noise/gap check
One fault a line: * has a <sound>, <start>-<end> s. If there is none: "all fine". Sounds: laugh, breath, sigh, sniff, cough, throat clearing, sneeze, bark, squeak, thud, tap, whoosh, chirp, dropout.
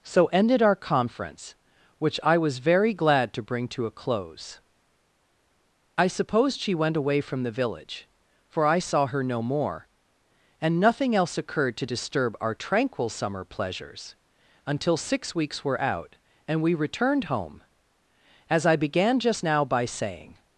all fine